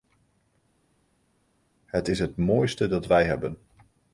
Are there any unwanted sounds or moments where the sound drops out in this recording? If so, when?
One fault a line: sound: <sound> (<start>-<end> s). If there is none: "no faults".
no faults